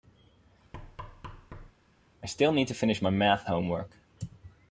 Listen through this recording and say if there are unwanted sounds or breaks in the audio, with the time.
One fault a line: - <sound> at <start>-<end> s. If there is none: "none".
- thud at 0.7-1.7 s